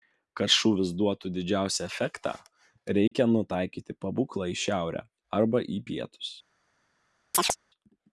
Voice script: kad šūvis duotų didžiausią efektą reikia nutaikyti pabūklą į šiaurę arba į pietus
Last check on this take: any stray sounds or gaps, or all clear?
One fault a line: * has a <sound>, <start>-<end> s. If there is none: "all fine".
* has a dropout, 3.1-3.1 s
* has a chirp, 7.3-7.6 s